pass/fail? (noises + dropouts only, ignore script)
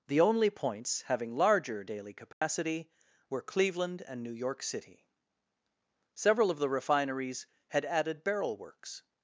fail